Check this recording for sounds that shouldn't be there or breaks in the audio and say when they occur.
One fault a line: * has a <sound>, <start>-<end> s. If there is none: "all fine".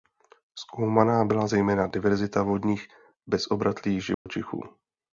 * has a dropout, 4.1-4.3 s